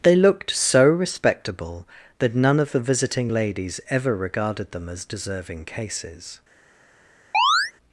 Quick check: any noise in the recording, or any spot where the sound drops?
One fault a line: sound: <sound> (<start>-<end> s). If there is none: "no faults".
sound: chirp (7.3-7.7 s)